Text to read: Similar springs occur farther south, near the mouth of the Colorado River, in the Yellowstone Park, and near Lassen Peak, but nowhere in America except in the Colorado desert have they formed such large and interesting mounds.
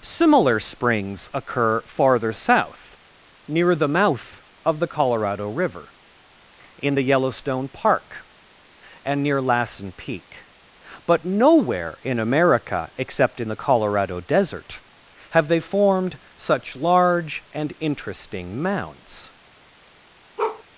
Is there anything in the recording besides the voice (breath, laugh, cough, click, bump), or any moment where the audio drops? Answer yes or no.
yes